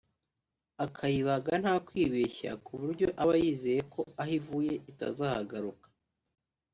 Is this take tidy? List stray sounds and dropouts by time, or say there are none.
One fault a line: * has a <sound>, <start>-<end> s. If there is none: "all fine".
all fine